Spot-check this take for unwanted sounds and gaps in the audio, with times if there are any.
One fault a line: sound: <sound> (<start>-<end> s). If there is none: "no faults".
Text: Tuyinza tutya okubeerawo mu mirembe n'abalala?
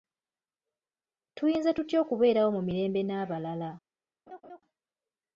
sound: laugh (4.3-4.6 s)